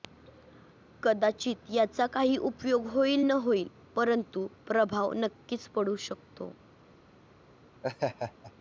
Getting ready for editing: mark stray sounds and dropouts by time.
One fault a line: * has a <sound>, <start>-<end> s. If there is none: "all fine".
* has a laugh, 7.8-8.5 s